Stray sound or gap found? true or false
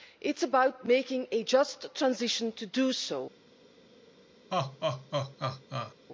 true